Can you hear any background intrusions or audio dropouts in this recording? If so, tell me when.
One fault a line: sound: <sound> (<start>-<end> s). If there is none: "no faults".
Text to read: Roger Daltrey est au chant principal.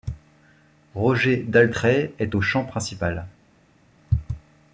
no faults